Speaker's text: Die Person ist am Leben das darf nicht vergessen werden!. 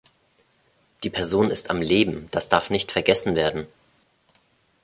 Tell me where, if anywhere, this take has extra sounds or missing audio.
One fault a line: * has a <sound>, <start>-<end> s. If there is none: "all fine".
all fine